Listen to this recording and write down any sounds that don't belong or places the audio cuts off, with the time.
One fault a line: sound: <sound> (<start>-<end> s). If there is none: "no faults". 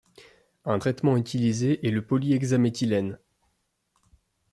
no faults